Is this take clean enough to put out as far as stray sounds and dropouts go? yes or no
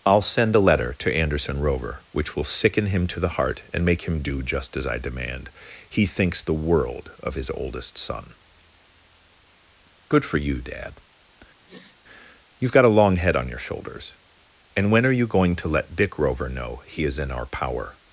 no